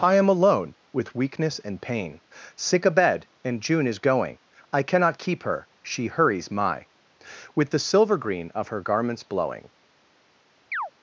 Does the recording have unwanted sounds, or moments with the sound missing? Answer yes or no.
yes